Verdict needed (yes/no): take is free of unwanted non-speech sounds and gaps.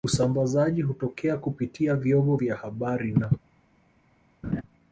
no